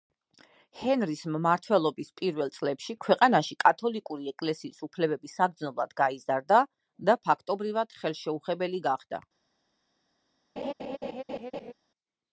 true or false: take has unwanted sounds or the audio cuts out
true